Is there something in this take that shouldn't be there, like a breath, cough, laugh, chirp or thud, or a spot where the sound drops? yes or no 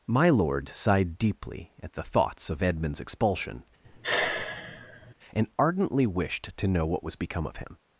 yes